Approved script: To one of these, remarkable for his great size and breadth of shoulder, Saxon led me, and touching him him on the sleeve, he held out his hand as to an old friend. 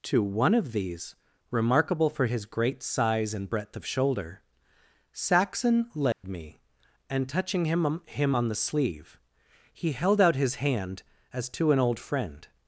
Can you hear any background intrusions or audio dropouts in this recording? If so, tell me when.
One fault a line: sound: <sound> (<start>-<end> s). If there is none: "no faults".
sound: dropout (6.1-6.2 s)